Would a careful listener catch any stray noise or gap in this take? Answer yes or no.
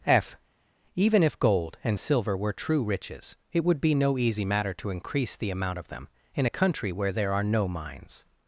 no